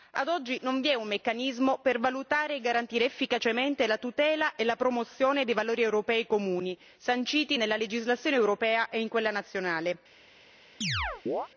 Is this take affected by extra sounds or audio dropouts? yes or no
yes